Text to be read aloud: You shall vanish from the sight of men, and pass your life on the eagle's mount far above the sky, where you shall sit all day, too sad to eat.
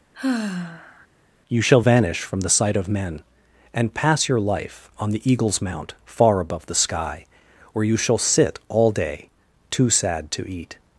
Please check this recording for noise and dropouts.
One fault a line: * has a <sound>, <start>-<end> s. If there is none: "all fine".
* has a sigh, 0.1-1.1 s